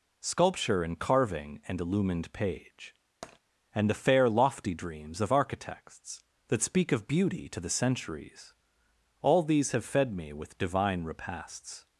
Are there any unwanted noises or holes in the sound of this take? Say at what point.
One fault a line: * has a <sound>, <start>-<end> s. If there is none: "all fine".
* has a tap, 3.2-3.4 s